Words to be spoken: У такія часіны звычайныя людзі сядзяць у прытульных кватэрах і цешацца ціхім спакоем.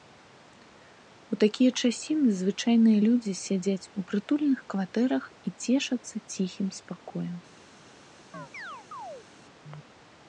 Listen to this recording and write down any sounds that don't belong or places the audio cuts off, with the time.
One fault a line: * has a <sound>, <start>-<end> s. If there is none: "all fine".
* has a chirp, 8.3-9.3 s